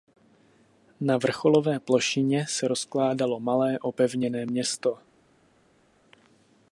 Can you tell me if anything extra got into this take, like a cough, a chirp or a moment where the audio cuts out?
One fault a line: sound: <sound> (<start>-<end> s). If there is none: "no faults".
no faults